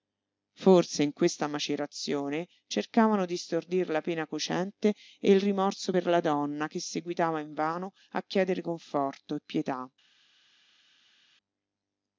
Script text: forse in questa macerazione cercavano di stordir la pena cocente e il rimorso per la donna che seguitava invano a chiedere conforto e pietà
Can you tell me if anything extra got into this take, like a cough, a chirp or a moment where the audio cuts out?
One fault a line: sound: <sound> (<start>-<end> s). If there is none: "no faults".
no faults